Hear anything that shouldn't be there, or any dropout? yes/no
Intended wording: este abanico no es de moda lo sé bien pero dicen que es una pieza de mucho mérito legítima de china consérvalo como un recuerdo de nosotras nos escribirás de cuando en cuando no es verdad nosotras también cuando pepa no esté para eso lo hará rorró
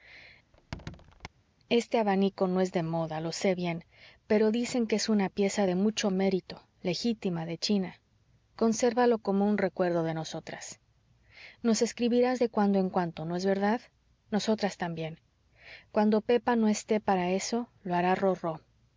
yes